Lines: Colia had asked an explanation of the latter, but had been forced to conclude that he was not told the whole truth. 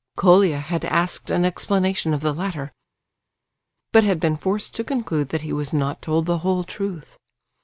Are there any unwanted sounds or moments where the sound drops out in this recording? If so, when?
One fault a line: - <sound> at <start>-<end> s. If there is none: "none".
none